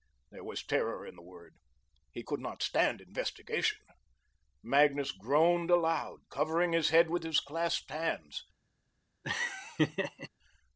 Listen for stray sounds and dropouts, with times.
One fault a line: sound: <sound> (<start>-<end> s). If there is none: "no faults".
sound: laugh (9.2-10.3 s)